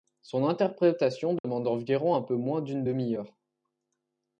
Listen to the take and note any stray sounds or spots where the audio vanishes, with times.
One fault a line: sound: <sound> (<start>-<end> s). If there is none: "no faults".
sound: dropout (1.4-1.4 s)